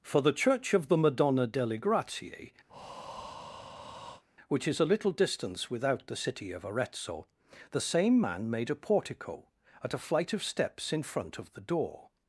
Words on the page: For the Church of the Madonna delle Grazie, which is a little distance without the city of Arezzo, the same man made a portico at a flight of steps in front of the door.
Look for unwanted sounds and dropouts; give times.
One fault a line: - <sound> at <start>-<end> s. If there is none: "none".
- breath at 2.7-4.2 s